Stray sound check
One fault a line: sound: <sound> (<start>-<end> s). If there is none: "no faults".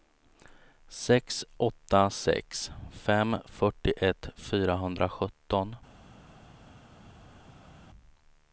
no faults